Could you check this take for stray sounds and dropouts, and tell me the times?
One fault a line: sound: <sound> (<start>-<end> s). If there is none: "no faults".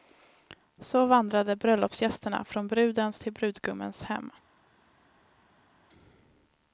no faults